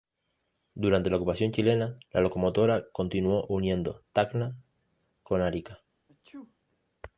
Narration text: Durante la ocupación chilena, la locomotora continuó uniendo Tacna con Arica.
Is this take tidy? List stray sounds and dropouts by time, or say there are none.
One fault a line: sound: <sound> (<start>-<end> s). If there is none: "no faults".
sound: sneeze (6.1-6.5 s)